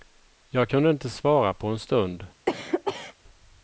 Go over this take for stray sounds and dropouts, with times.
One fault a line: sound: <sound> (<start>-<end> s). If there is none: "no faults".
sound: cough (2.5-3.2 s)